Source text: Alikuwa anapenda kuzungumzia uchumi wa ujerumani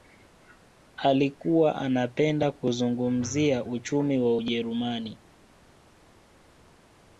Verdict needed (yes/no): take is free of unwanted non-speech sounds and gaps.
yes